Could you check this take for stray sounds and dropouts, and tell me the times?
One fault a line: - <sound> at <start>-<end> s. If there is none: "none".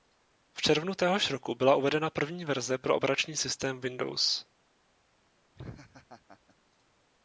- laugh at 5.5-6.6 s